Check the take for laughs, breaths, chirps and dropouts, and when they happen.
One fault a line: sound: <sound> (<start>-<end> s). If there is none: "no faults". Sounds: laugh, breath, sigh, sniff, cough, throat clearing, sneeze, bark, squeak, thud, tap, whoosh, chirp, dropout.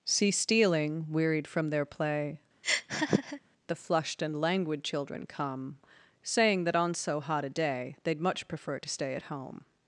sound: laugh (2.6-3.4 s)